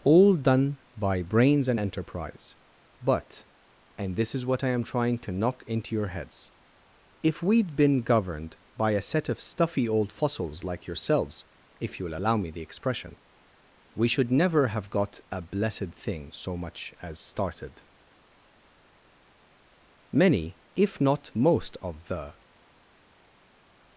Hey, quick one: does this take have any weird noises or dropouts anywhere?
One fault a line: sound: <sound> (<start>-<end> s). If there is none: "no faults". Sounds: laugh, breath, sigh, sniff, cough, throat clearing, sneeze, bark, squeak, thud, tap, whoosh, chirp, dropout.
no faults